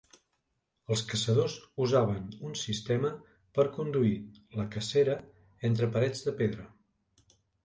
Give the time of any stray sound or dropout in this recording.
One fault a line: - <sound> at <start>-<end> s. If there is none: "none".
none